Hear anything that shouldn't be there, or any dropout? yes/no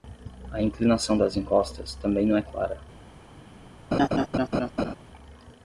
yes